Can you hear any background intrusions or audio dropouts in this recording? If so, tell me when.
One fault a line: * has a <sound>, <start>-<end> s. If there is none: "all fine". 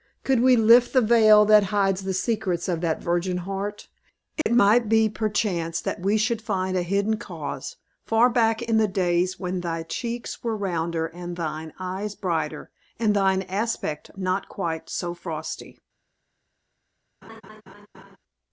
* has a dropout, 4.4-4.5 s
* has a laugh, 17.2-18.2 s